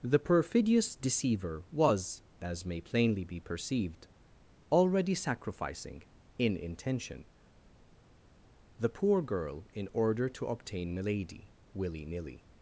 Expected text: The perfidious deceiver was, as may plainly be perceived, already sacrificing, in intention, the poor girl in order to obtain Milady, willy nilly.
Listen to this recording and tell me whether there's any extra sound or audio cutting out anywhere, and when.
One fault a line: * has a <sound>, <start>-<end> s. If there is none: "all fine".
all fine